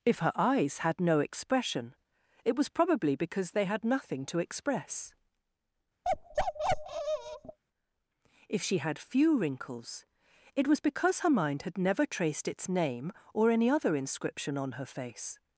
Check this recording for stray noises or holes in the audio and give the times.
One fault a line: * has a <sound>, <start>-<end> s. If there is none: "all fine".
* has a bark, 6.0-7.6 s